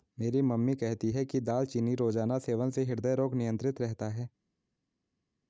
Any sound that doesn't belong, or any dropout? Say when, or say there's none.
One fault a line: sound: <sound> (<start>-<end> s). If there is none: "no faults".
no faults